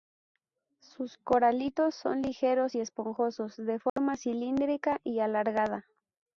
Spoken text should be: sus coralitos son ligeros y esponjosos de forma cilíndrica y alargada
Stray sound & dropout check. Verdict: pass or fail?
fail